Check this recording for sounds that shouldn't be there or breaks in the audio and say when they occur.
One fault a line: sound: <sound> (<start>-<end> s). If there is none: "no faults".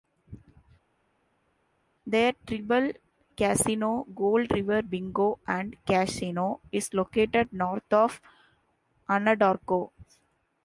no faults